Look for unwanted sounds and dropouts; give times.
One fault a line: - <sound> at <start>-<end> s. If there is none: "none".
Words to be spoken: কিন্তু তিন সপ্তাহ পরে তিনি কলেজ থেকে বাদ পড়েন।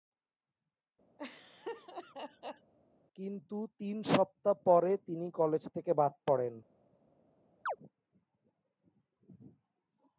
- laugh at 1.2-2.7 s
- chirp at 7.7-7.8 s